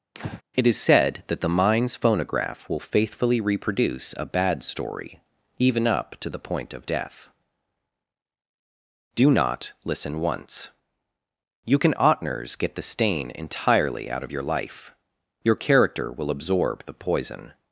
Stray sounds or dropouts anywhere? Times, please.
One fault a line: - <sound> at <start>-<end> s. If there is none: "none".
- breath at 0.1-0.4 s